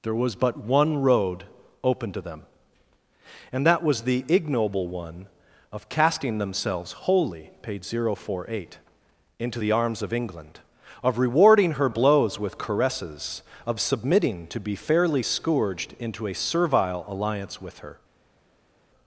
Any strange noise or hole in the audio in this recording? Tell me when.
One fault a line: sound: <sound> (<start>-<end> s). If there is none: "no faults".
no faults